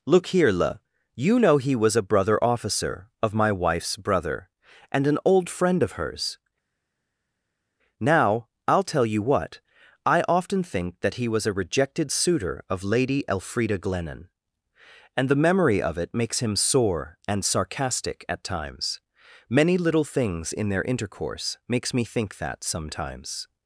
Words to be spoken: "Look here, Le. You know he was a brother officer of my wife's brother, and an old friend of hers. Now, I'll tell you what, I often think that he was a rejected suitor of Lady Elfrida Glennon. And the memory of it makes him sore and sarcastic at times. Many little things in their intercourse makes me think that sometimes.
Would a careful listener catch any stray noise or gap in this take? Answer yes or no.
no